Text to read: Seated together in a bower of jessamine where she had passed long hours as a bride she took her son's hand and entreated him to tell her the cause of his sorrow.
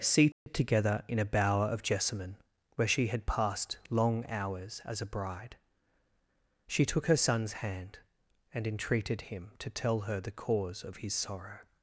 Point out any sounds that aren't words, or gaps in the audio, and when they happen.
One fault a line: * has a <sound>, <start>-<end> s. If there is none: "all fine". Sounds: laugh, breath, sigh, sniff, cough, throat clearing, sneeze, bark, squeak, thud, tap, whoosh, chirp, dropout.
* has a dropout, 0.3-0.5 s